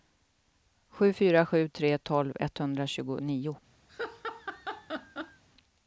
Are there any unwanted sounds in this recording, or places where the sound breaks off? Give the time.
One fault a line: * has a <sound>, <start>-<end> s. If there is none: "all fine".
* has a laugh, 3.9-5.4 s